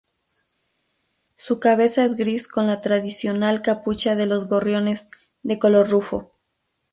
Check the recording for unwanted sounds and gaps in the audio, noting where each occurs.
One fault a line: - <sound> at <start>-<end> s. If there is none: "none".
none